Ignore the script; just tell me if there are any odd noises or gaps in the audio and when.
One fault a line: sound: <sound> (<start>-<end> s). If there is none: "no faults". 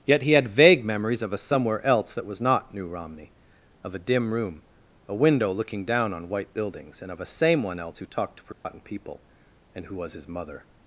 sound: dropout (8.5-8.7 s)